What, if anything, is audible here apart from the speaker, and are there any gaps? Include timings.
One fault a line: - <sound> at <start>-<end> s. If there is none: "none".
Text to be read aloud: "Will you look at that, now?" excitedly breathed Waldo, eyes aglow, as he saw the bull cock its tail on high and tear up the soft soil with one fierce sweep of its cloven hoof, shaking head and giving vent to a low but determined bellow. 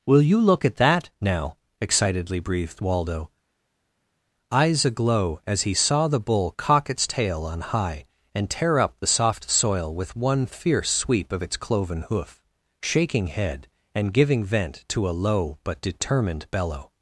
none